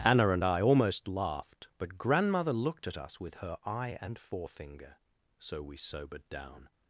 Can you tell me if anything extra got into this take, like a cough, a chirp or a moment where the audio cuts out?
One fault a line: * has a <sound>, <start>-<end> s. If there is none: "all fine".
all fine